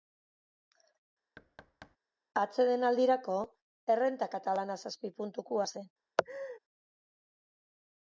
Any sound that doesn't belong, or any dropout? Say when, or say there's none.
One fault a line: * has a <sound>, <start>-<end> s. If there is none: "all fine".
* has a thud, 1.4-2.0 s
* has a laugh, 6.2-6.6 s